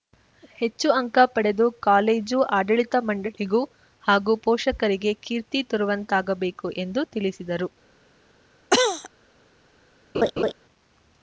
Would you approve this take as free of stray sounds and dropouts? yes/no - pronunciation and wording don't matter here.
no